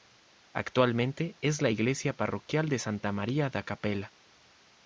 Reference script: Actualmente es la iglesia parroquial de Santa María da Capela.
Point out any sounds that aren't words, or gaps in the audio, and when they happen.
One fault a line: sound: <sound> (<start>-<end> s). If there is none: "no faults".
no faults